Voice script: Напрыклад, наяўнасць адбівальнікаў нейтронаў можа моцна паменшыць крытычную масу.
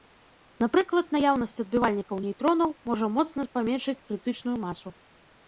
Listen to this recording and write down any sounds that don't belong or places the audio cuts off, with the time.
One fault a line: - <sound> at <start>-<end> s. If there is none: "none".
none